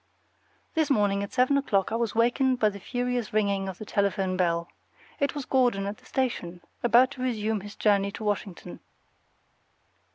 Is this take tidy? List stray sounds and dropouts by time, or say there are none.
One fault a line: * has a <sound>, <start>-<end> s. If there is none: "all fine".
all fine